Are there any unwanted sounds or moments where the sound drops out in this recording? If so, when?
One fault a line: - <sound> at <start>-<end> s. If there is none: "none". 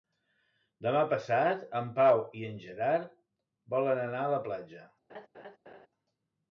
- laugh at 5.1-5.9 s